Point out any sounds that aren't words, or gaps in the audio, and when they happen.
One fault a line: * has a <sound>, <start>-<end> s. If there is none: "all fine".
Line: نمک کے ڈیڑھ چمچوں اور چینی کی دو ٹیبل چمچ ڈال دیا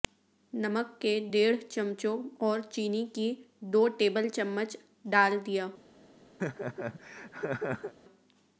* has a laugh, 6.4-7.9 s